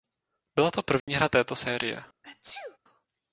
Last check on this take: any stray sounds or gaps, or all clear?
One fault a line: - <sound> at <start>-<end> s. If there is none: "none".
- dropout at 1.0-1.1 s
- sneeze at 2.2-2.8 s